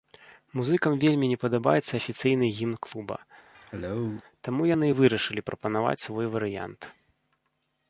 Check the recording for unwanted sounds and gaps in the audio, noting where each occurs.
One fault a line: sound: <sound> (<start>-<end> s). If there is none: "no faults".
sound: cough (3.5-4.2 s)